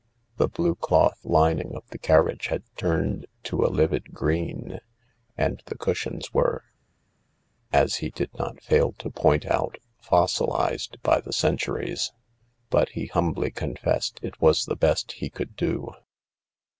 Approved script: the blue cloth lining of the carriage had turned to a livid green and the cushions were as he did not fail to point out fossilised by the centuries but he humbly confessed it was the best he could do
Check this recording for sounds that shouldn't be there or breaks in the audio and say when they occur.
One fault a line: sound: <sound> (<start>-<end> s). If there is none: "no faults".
no faults